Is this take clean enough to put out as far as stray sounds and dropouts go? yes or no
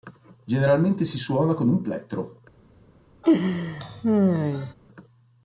no